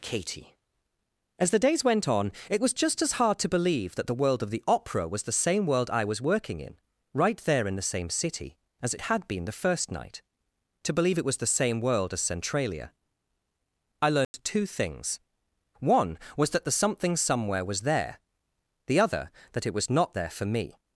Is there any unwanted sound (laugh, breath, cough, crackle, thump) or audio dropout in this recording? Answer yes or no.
yes